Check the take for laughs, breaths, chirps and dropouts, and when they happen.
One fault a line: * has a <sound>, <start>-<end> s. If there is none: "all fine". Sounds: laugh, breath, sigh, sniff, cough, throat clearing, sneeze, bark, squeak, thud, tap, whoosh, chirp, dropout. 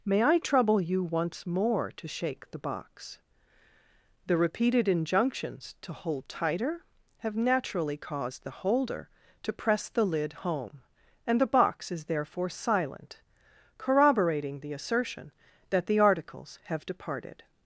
all fine